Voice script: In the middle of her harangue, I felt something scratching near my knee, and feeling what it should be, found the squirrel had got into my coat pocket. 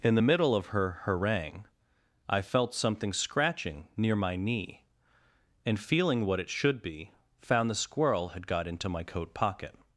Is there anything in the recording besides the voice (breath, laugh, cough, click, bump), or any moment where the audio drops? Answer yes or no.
no